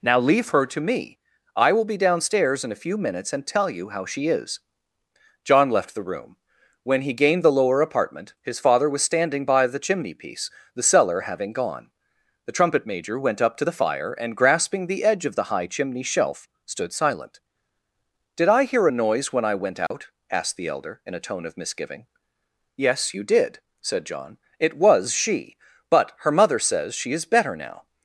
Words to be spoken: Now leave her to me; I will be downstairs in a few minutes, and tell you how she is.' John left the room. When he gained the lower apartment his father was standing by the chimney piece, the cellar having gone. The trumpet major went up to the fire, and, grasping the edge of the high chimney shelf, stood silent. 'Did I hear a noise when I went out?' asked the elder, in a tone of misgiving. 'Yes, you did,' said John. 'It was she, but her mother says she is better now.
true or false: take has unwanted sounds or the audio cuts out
true